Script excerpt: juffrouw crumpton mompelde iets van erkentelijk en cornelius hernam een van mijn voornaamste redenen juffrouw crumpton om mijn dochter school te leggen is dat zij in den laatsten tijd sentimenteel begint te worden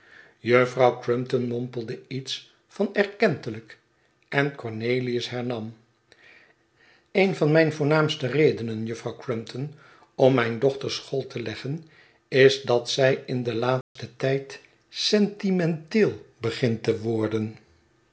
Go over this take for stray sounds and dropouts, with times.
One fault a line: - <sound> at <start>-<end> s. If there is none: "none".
- dropout at 13.8-14.0 s